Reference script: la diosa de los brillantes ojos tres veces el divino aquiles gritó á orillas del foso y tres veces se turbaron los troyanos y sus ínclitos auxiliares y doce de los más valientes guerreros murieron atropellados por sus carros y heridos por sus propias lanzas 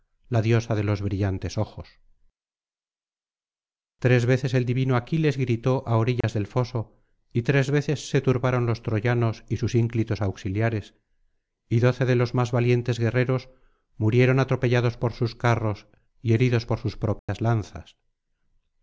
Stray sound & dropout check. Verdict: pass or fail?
fail